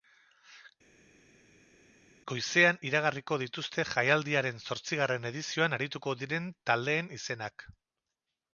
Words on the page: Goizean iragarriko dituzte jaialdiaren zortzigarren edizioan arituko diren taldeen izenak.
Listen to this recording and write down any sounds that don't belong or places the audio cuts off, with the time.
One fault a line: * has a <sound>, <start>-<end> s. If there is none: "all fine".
all fine